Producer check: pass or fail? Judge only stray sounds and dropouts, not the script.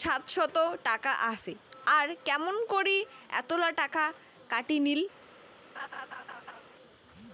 fail